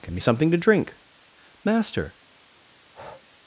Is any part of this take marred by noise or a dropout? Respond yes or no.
yes